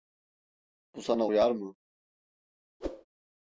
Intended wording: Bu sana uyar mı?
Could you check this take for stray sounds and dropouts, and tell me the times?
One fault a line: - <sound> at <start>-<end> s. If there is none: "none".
- whoosh at 2.8-3.0 s